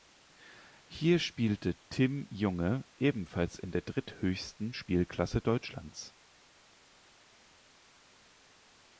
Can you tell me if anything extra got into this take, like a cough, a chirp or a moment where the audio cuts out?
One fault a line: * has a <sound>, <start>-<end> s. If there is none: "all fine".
all fine